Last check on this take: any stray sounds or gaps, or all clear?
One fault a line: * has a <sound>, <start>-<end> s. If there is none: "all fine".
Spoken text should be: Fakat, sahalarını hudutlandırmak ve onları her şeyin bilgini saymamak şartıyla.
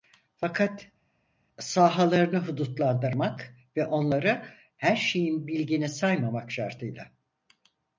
all fine